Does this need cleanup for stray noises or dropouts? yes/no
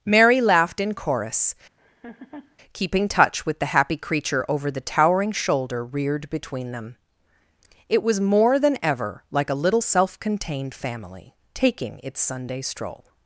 yes